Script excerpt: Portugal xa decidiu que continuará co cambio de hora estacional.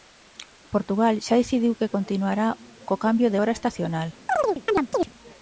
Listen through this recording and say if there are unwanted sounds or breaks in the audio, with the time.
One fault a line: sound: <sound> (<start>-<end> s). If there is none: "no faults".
sound: chirp (4.3-5.1 s)